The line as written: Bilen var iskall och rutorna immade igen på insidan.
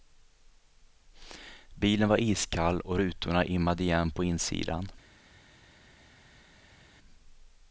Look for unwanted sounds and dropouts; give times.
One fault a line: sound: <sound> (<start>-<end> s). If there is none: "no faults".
no faults